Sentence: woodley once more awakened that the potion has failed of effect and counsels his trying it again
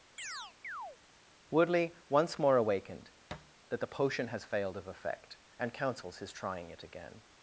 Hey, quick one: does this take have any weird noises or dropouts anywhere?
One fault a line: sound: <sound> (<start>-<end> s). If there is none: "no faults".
sound: chirp (0.2-1.0 s)
sound: thud (3.3-3.6 s)